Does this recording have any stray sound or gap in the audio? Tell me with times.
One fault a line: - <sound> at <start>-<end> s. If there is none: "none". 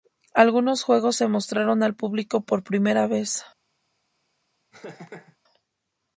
- laugh at 4.7-5.4 s